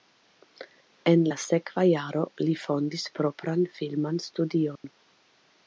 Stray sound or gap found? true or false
true